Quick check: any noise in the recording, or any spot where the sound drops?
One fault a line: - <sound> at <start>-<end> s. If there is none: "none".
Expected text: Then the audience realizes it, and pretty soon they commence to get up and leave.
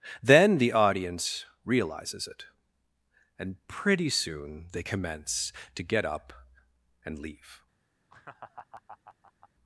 - laugh at 8.1-9.5 s